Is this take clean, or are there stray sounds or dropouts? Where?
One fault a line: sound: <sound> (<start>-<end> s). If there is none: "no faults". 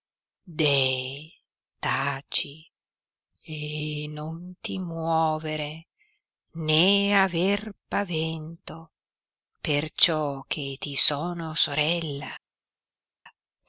no faults